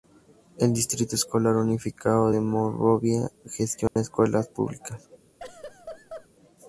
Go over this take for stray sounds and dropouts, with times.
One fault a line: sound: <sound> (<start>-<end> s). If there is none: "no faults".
sound: dropout (3.9-4.0 s)
sound: laugh (5.4-6.3 s)